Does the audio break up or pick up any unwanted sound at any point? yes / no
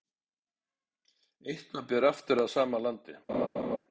yes